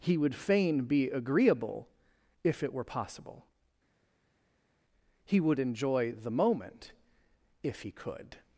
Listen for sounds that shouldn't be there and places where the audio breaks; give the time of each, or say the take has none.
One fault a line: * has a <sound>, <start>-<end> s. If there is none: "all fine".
all fine